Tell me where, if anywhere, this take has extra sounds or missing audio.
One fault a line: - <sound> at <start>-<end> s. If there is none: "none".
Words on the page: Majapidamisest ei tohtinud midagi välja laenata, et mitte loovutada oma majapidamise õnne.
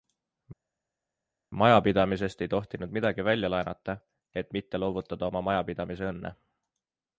none